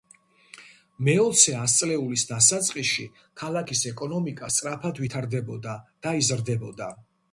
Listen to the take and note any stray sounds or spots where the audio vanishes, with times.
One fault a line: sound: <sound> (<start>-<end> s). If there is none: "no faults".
no faults